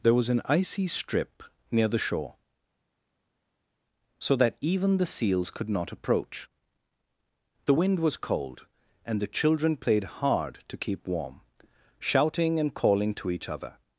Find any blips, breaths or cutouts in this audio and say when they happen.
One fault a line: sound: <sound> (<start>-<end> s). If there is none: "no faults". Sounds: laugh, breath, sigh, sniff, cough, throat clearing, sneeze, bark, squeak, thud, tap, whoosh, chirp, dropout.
no faults